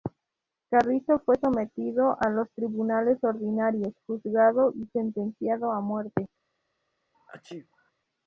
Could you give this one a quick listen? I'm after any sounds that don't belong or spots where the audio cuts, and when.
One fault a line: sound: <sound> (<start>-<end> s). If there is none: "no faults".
sound: sneeze (7.1-7.9 s)